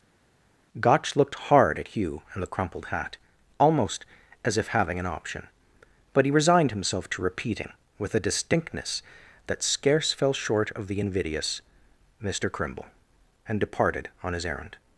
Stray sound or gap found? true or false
false